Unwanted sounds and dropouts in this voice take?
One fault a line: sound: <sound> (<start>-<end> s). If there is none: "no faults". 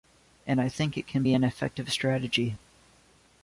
no faults